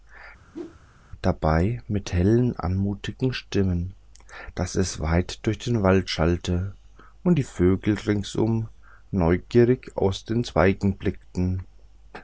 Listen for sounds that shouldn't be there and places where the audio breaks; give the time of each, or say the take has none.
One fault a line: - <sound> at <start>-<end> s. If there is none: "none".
- whoosh at 0.5-0.8 s